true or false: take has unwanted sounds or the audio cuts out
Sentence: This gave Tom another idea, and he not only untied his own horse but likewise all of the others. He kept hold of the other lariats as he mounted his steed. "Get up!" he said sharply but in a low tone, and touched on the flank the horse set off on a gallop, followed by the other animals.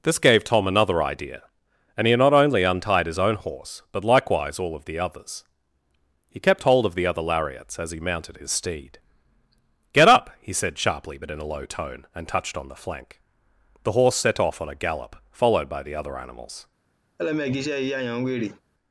true